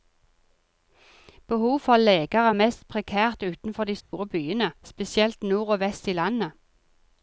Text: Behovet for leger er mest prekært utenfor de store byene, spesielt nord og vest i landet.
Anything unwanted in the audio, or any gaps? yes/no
yes